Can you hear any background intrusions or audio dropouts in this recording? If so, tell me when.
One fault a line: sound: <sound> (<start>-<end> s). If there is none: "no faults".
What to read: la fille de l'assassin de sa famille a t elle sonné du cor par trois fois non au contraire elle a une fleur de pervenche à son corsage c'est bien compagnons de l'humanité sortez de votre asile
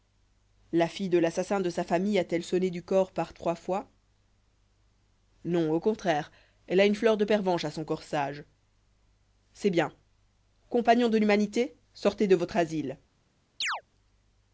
sound: chirp (13.6-13.8 s)